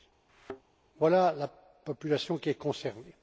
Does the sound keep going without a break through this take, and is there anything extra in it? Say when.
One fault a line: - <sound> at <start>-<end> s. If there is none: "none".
- thud at 0.3-0.6 s